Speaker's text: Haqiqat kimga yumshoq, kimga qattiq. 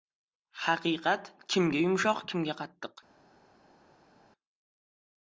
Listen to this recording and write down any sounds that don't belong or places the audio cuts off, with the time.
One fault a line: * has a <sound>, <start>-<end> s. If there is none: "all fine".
all fine